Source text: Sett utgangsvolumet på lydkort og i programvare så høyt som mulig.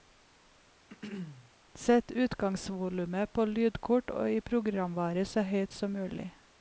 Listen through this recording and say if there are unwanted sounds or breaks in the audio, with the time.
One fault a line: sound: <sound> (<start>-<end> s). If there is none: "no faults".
sound: throat clearing (0.9-1.5 s)